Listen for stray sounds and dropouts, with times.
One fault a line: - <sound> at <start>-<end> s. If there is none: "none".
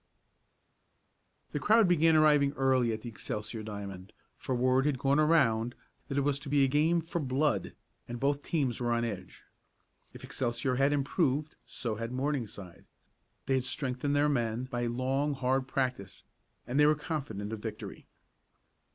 none